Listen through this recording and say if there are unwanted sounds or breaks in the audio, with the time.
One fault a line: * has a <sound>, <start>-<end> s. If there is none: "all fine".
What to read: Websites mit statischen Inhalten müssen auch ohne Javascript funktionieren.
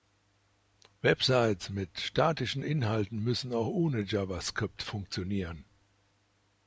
all fine